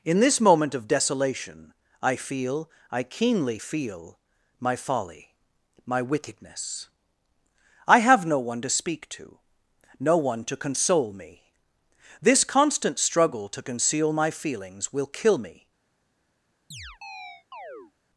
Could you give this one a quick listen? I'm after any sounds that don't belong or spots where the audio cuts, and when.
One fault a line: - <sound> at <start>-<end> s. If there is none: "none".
- chirp at 16.7-17.9 s